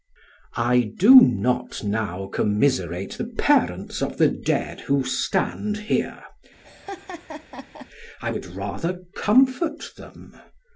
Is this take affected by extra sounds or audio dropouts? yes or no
yes